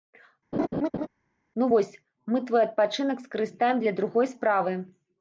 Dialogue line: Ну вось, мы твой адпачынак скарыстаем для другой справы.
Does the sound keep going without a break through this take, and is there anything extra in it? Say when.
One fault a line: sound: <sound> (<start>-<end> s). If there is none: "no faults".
sound: laugh (0.5-1.1 s)